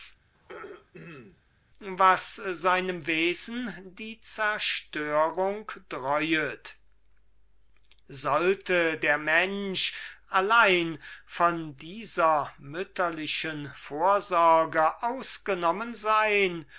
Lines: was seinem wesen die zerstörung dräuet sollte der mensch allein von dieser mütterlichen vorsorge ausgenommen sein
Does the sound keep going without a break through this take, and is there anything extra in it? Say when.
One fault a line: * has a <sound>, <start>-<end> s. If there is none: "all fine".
* has a throat clearing, 0.3-1.4 s